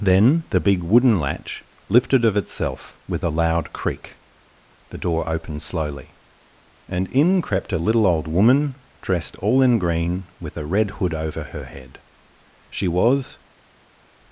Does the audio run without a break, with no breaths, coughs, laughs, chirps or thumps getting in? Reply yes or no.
yes